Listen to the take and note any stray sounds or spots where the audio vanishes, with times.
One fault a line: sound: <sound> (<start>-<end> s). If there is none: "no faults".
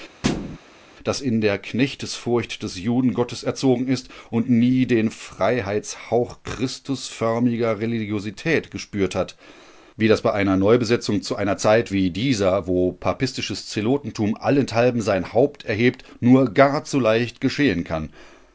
sound: thud (0.2-0.6 s)